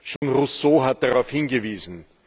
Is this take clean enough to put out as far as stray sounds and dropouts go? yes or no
no